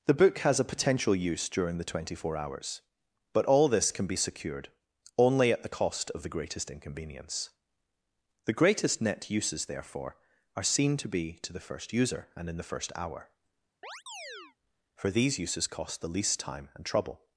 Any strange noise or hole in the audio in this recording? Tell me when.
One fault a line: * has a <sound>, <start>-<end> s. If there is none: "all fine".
* has a chirp, 13.8-14.6 s